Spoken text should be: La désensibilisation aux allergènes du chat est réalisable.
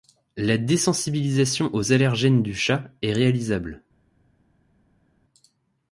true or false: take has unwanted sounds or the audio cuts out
false